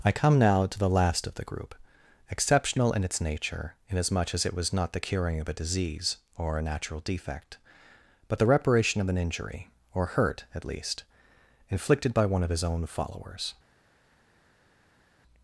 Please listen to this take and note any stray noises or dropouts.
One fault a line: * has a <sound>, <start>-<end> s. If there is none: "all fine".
all fine